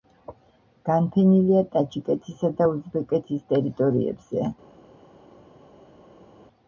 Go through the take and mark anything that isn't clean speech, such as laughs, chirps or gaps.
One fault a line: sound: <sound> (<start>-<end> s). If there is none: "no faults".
no faults